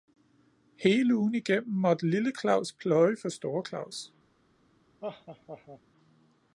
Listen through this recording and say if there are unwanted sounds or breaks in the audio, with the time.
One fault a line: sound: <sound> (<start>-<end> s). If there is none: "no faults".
sound: laugh (5.0-5.8 s)